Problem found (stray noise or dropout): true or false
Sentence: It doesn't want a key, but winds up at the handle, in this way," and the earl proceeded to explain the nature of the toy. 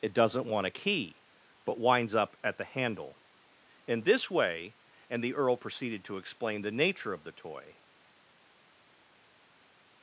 false